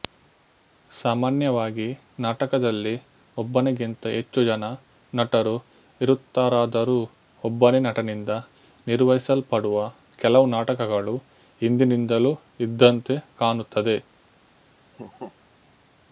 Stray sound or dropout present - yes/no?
yes